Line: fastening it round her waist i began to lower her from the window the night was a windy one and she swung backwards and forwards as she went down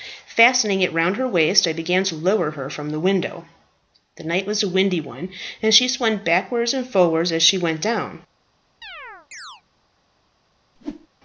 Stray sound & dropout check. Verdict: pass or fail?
fail